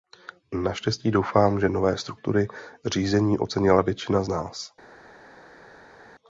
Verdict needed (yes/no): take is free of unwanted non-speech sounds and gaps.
yes